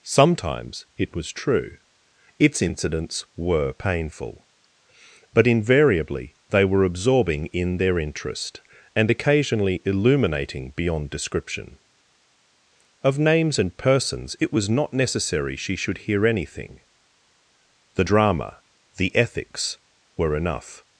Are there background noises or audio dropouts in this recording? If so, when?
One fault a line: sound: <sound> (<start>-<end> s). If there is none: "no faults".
no faults